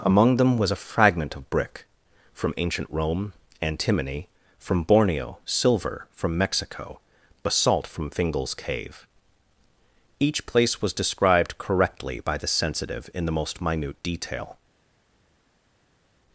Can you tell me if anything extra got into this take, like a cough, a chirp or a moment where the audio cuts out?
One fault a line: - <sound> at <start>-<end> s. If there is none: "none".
none